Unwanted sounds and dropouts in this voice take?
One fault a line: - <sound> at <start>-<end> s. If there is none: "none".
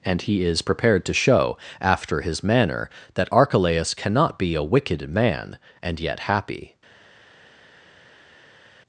none